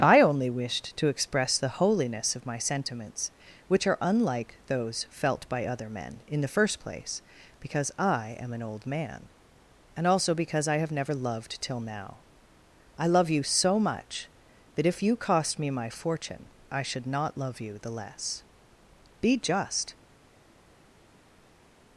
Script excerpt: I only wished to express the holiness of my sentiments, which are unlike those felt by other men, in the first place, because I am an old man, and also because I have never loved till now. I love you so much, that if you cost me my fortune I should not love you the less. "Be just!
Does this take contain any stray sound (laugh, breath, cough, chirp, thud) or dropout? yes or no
no